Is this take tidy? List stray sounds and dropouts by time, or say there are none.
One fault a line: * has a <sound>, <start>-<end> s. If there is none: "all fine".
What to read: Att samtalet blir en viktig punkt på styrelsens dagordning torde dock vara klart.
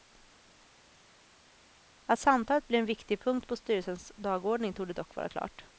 all fine